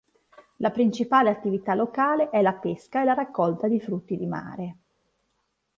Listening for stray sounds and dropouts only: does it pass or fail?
pass